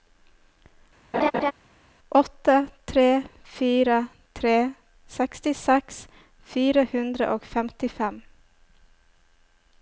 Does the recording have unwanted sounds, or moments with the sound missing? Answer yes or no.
yes